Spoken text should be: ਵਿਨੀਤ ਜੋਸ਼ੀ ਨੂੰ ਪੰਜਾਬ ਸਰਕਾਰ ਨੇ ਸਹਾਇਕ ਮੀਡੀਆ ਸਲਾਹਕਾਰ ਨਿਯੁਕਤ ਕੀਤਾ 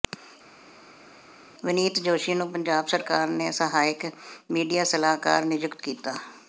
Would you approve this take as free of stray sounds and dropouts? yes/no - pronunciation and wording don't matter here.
yes